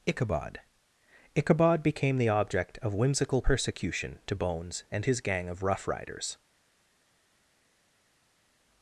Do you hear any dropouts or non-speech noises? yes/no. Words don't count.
no